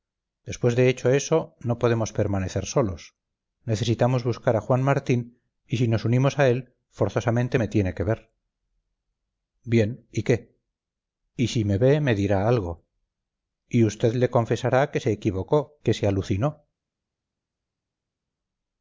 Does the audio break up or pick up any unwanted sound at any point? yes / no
no